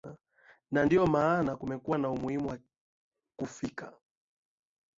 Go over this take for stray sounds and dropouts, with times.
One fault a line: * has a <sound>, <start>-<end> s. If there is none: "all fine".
all fine